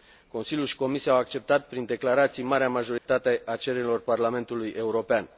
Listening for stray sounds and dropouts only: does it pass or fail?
fail